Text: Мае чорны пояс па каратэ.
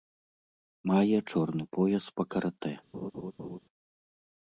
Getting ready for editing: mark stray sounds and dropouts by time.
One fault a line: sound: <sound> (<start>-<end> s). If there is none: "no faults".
sound: laugh (2.9-3.6 s)